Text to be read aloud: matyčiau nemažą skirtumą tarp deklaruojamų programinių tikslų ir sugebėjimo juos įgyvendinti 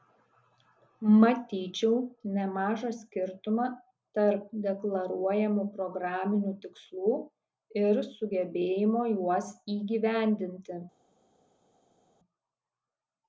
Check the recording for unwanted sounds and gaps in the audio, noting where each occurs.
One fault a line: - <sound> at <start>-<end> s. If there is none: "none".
none